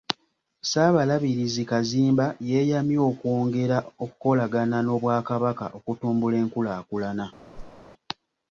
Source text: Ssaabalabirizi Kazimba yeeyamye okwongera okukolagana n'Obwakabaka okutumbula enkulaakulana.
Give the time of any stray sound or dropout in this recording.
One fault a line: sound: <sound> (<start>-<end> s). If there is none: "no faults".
sound: whoosh (7.5-7.8 s)